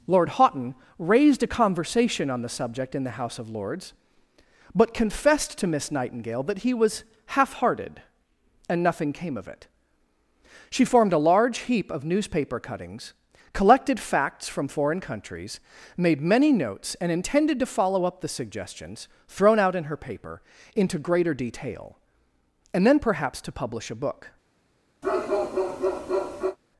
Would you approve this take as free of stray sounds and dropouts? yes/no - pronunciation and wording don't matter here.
no